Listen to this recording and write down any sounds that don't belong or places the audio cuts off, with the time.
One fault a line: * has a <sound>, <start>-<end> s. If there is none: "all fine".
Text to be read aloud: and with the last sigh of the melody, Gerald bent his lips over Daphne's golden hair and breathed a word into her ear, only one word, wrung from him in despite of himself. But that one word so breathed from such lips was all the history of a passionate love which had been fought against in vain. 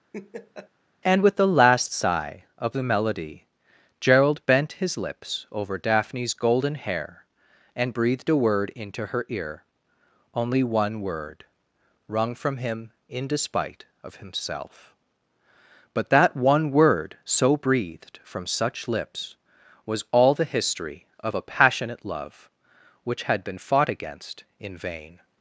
* has a laugh, 0.1-0.7 s